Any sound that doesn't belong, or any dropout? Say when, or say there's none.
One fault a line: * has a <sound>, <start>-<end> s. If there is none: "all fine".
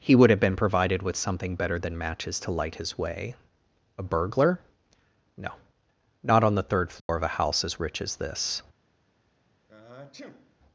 * has a dropout, 7.0-7.1 s
* has a sniff, 9.7-10.6 s